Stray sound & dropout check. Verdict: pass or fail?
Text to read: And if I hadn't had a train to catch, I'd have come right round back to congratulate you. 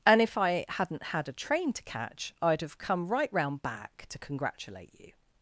pass